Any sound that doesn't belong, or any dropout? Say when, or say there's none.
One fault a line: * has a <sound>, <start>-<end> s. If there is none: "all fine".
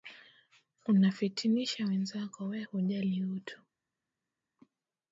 all fine